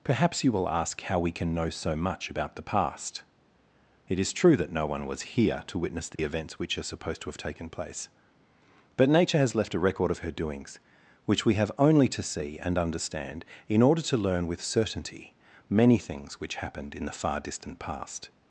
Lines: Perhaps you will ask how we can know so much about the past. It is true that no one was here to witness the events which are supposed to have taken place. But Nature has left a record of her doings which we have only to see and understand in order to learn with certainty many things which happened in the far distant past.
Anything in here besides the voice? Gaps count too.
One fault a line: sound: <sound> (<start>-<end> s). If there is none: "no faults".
sound: dropout (6.1-6.2 s)